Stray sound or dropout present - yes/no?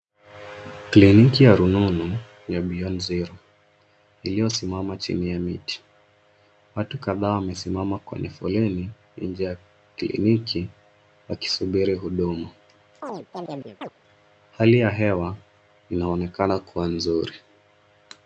yes